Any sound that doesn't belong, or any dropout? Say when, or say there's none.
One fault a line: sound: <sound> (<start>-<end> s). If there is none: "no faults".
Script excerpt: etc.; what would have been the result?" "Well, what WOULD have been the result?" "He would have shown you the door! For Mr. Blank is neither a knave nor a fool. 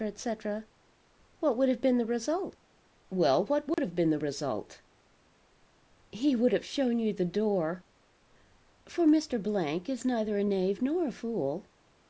sound: dropout (3.7-3.8 s)